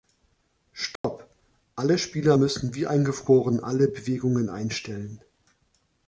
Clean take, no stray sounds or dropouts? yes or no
no